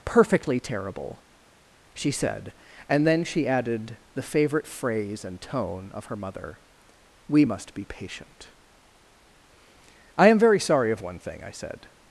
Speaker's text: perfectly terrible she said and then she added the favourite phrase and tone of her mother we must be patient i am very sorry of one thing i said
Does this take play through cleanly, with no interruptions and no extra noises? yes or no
yes